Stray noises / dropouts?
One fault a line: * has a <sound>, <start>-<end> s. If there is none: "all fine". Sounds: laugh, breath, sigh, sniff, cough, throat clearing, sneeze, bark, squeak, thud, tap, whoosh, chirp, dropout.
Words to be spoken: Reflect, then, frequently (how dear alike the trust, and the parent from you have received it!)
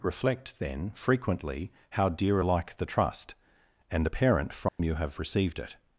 * has a dropout, 4.7-4.8 s